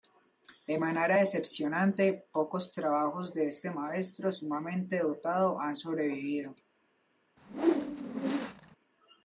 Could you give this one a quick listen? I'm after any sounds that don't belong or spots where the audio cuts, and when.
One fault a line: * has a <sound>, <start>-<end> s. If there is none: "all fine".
* has a whoosh, 7.4-8.8 s